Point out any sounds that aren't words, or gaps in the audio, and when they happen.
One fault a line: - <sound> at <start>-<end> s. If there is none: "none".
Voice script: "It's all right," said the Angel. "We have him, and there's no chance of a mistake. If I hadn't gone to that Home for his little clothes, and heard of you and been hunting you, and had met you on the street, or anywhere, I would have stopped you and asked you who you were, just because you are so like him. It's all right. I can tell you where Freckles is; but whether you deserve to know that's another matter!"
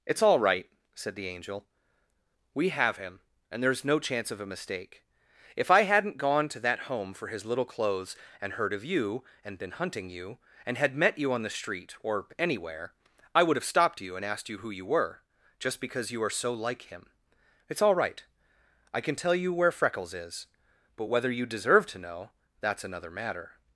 none